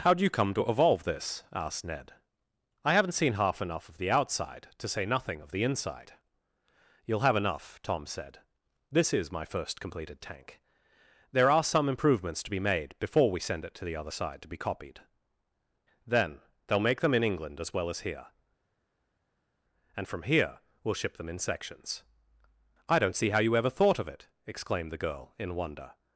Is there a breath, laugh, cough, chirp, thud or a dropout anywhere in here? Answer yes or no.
no